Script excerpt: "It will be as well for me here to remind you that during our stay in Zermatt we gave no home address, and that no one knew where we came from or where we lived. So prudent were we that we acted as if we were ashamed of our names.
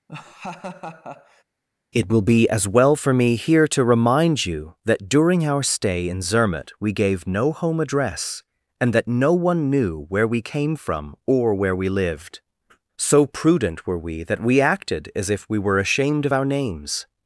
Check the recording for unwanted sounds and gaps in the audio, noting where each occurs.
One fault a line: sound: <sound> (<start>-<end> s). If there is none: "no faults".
sound: laugh (0.1-1.4 s)